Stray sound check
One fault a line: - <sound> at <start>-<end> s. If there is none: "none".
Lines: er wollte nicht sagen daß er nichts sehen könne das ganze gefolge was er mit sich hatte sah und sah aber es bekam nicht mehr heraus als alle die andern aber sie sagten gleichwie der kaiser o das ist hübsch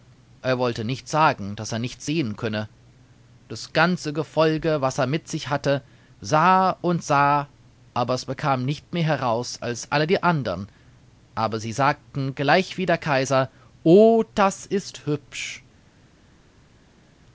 none